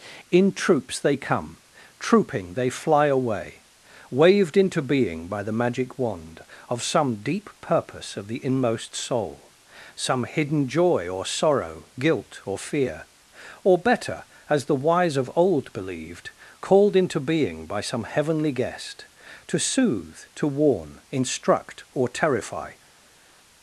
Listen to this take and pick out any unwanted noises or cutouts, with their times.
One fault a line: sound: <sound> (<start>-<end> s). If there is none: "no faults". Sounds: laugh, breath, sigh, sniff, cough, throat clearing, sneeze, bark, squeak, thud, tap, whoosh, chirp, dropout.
no faults